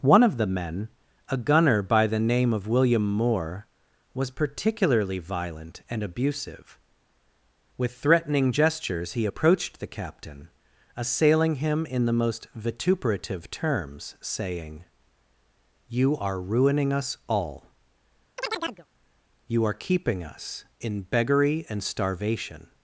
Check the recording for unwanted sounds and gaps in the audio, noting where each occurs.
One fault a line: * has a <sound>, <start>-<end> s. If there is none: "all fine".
* has a chirp, 18.4-18.9 s